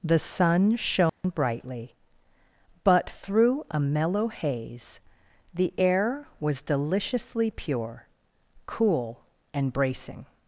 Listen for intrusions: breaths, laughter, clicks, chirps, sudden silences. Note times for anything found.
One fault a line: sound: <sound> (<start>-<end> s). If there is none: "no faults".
sound: dropout (1.1-1.2 s)